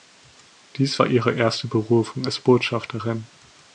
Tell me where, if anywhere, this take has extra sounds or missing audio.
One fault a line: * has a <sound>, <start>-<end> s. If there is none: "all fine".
all fine